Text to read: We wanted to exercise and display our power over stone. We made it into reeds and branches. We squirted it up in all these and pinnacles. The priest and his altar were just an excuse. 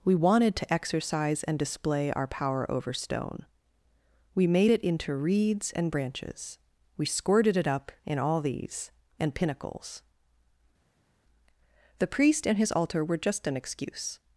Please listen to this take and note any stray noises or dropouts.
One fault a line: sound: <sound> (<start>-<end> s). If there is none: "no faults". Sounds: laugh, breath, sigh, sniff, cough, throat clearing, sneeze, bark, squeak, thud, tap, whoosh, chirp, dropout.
no faults